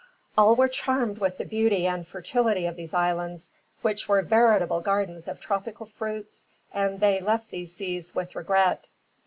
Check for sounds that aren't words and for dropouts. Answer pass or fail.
pass